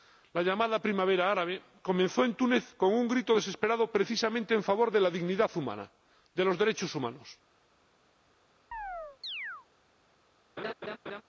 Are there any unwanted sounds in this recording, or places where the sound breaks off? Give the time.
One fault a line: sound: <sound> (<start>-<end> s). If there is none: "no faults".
sound: chirp (8.7-9.7 s)
sound: laugh (10.6-11.2 s)